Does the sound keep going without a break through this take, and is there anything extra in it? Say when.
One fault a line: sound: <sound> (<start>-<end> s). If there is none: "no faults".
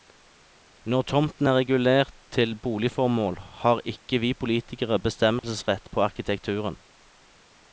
sound: dropout (5.4-5.4 s)